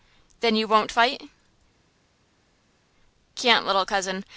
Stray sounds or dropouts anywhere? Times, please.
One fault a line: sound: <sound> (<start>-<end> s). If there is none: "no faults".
no faults